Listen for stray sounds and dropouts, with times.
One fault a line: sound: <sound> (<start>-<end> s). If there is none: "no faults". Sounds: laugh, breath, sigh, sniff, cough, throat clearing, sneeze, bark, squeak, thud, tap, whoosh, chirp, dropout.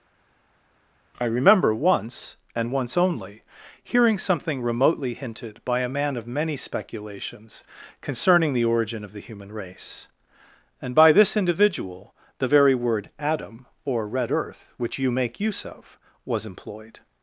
no faults